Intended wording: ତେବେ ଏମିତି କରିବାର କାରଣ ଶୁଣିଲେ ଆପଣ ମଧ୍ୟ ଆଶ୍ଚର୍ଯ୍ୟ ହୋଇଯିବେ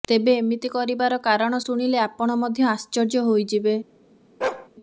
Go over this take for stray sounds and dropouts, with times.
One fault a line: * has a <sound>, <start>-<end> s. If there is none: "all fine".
* has a bark, 4.4-4.7 s